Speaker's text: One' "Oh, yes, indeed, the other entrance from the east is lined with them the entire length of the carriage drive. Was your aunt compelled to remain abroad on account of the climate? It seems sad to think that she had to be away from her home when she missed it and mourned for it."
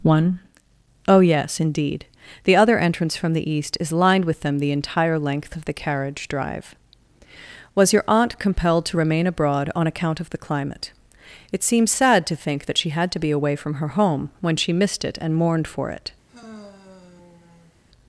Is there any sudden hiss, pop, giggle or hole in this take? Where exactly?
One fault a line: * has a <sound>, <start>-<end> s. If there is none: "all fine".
* has a sigh, 16.3-17.8 s